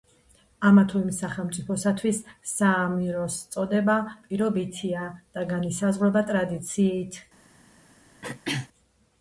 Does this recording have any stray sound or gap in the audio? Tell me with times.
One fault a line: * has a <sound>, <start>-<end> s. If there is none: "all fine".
* has a throat clearing, 8.2-8.7 s